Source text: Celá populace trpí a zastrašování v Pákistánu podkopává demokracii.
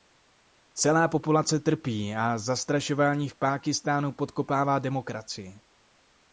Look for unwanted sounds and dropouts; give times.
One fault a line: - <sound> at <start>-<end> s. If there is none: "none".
none